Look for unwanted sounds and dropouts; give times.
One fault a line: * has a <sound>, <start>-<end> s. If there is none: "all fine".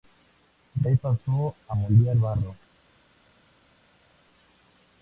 all fine